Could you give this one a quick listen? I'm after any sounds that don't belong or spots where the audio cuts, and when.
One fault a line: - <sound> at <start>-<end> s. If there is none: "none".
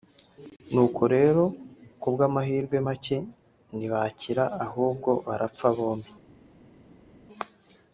none